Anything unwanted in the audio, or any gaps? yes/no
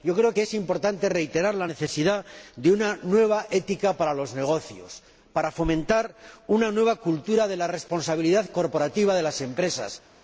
no